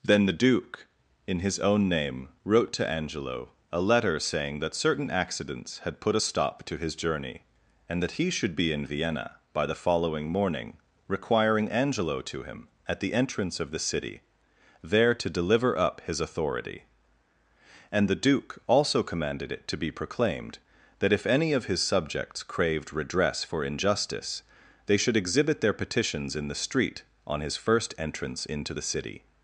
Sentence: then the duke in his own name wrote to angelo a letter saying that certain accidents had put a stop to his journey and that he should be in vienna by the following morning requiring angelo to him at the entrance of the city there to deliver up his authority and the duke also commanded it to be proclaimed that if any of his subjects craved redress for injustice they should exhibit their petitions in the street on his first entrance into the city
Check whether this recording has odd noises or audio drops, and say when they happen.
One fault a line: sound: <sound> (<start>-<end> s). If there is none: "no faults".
no faults